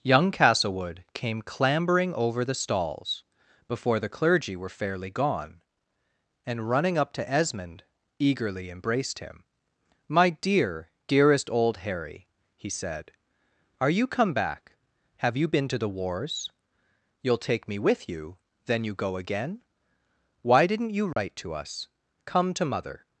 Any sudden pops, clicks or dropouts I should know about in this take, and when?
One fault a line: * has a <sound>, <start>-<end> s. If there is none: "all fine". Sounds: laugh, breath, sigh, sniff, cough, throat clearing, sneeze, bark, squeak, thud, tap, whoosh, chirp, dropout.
* has a dropout, 21.1-21.2 s